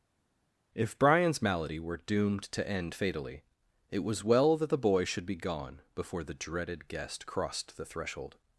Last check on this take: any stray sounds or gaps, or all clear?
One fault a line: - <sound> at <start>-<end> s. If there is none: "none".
none